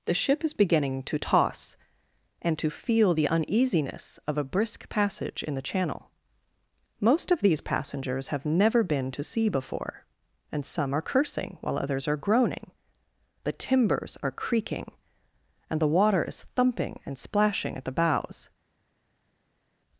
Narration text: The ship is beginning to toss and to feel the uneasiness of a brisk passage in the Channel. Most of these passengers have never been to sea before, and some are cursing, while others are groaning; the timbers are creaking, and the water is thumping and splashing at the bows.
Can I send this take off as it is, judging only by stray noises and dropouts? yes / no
yes